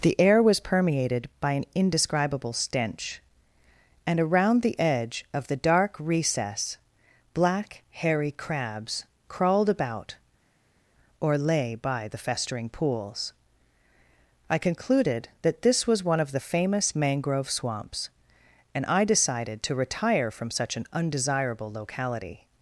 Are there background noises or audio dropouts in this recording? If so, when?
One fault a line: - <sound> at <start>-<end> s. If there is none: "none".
none